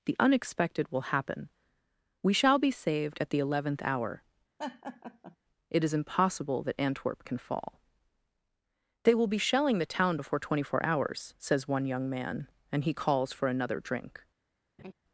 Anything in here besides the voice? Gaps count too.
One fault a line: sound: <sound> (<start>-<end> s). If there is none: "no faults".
sound: laugh (4.6-5.4 s)
sound: laugh (14.8-14.9 s)